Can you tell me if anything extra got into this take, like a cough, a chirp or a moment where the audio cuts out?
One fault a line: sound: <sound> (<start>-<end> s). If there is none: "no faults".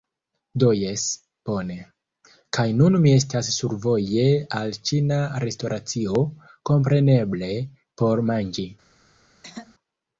sound: throat clearing (9.4-9.8 s)